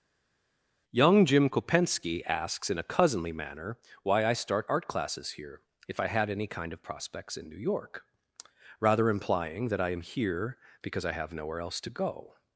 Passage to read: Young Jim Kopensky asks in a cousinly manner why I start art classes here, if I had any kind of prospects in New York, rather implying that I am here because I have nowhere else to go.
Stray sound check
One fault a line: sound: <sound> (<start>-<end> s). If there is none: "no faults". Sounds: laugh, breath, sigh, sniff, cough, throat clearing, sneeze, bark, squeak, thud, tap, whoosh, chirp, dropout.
no faults